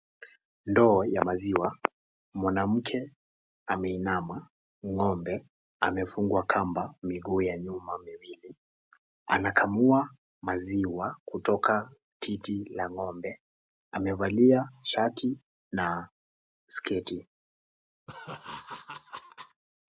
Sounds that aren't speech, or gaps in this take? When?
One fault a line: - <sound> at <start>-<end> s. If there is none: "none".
- laugh at 18.1-19.6 s